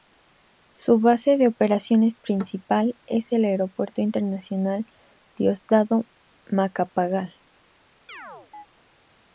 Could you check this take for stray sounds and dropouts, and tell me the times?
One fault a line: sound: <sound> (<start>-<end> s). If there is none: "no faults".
sound: chirp (8.1-8.7 s)